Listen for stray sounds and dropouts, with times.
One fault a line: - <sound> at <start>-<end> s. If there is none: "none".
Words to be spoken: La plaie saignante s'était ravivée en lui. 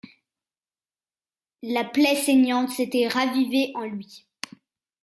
none